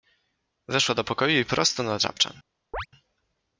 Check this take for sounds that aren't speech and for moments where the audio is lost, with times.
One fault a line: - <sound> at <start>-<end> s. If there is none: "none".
- chirp at 2.7-2.9 s